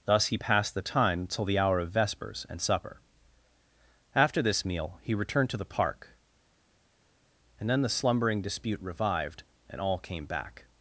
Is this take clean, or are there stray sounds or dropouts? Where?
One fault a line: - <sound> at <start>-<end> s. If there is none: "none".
none